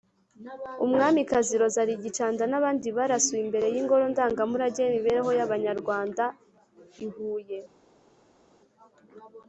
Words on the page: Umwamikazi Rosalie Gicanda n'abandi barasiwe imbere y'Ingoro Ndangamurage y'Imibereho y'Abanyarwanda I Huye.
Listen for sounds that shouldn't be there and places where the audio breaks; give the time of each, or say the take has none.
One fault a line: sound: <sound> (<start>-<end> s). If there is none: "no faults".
no faults